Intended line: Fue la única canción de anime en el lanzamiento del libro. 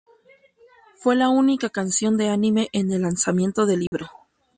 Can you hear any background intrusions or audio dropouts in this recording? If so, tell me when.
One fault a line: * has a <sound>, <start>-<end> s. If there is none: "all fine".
* has a dropout, 3.9-3.9 s